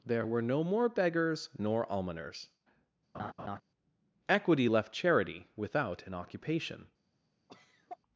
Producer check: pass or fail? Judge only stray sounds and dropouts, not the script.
fail